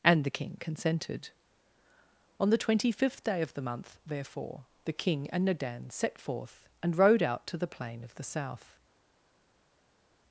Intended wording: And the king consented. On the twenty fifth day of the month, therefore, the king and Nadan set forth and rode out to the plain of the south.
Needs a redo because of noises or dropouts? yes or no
no